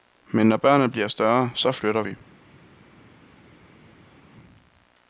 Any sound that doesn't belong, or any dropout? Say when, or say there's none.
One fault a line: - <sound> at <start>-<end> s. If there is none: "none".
none